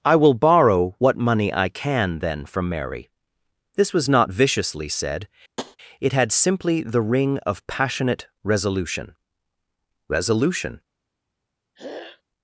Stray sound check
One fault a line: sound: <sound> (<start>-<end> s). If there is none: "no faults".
sound: tap (5.6-5.8 s)
sound: throat clearing (11.7-12.2 s)